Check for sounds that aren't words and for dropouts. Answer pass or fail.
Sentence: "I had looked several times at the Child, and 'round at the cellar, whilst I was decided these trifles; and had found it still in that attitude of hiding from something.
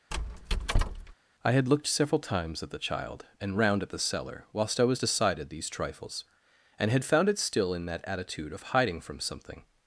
fail